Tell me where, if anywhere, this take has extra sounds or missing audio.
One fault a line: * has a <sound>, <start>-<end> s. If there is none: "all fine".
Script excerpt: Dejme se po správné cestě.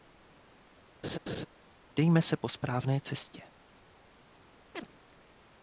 * has a laugh, 1.0-1.5 s
* has a chirp, 4.7-4.9 s